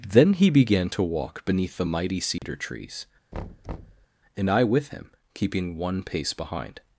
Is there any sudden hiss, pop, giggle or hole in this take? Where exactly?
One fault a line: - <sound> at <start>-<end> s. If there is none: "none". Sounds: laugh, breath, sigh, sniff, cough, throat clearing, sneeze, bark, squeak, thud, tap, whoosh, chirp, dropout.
- dropout at 2.4-2.4 s
- thud at 3.3-4.1 s